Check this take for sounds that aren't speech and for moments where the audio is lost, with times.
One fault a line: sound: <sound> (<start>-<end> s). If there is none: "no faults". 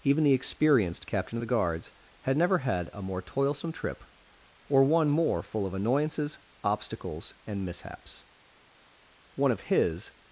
no faults